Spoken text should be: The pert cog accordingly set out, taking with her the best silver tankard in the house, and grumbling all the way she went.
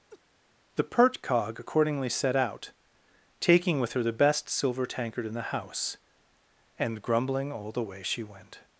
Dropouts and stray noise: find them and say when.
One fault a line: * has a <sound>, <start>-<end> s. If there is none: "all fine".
* has a laugh, 0.1-0.2 s